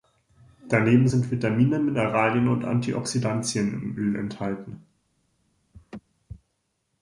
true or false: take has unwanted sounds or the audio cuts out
true